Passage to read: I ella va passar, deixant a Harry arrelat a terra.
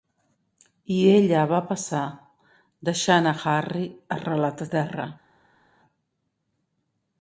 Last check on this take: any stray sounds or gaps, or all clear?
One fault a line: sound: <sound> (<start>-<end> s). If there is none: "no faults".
no faults